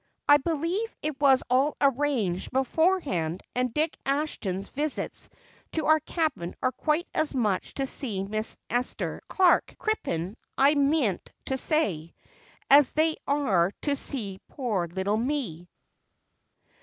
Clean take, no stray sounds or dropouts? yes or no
yes